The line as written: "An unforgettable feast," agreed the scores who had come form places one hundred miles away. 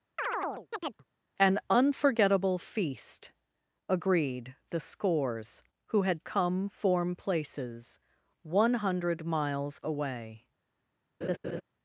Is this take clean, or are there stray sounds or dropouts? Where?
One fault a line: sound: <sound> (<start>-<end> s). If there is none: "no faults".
sound: chirp (0.2-1.0 s)
sound: laugh (11.2-11.6 s)